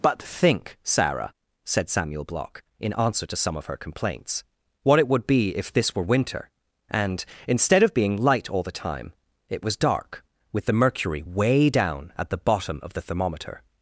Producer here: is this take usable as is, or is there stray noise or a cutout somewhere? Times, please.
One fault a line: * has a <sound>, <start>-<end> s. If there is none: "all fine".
all fine